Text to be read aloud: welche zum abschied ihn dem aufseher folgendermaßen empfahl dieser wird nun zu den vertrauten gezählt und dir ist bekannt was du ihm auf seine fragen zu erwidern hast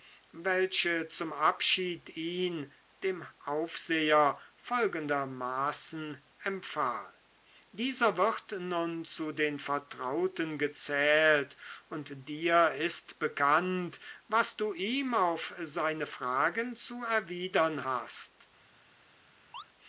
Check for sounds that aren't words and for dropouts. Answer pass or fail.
fail